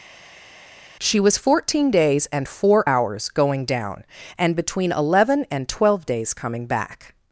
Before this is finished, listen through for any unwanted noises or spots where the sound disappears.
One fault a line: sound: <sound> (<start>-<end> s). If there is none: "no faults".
no faults